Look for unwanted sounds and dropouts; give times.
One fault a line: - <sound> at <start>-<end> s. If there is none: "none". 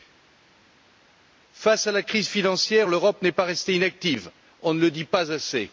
none